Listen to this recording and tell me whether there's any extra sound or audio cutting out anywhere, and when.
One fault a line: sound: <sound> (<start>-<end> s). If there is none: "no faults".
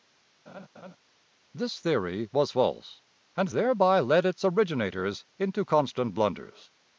sound: laugh (0.5-1.0 s)